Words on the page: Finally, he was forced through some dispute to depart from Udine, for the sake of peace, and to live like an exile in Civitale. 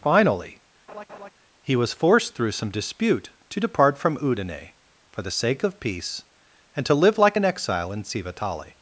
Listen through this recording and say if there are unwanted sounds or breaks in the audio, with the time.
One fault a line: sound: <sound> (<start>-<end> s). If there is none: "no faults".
sound: laugh (0.9-1.3 s)